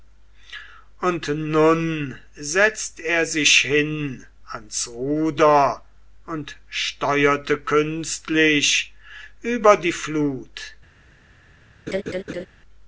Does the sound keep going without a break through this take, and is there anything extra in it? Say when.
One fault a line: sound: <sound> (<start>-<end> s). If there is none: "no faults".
sound: laugh (11.9-12.5 s)